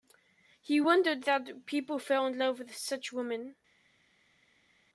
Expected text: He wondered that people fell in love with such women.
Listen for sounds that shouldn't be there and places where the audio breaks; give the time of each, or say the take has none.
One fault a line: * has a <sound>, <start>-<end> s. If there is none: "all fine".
all fine